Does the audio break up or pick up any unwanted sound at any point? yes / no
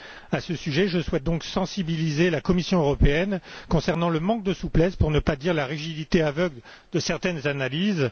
no